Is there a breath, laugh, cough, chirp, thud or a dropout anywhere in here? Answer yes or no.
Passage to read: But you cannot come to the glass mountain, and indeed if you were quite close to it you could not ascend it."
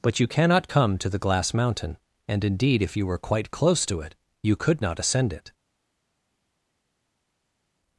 no